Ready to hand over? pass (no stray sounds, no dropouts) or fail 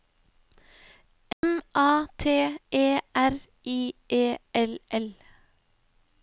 fail